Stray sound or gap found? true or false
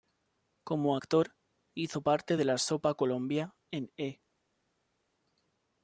false